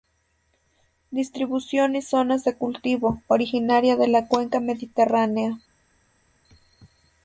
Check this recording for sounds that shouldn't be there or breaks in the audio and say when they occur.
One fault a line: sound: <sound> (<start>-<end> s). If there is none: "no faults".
no faults